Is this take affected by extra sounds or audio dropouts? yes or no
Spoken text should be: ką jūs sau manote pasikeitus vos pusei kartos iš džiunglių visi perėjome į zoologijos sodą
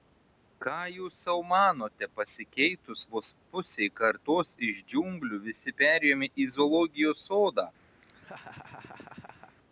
yes